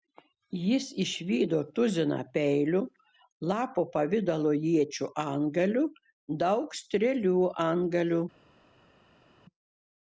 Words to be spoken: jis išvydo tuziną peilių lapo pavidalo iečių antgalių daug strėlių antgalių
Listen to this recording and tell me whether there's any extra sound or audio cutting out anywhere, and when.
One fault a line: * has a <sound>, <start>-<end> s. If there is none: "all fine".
all fine